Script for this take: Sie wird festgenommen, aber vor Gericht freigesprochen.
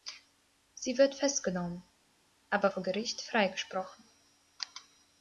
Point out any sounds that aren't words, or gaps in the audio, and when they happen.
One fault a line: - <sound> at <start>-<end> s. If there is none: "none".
none